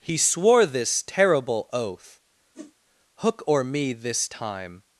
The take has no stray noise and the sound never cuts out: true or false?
false